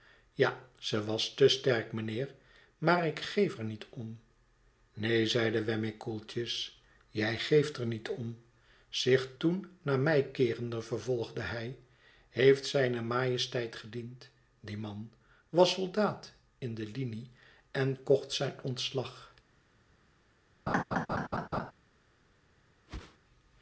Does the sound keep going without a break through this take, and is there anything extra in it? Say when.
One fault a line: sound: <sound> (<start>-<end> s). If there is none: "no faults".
sound: laugh (20.7-21.7 s)
sound: whoosh (22.9-23.2 s)